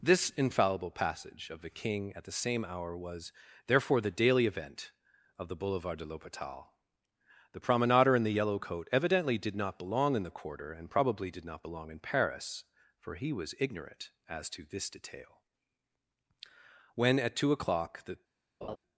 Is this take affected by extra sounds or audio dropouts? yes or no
yes